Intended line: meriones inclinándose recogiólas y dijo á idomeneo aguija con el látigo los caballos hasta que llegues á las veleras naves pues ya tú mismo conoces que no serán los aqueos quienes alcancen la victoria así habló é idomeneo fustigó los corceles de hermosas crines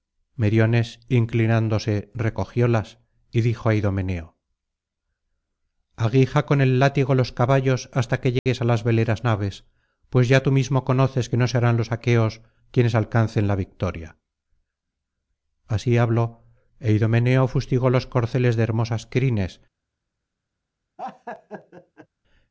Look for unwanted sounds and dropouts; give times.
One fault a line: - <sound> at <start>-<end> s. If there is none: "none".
- dropout at 8.4-8.5 s
- laugh at 21.0-22.1 s